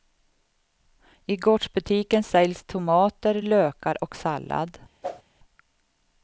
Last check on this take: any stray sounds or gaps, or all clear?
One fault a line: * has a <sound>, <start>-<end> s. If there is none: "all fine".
* has a whoosh, 5.0-5.2 s